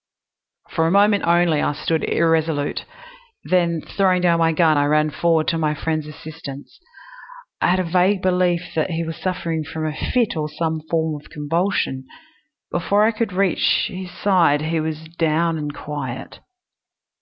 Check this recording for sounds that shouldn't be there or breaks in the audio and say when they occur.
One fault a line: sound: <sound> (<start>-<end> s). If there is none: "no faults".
no faults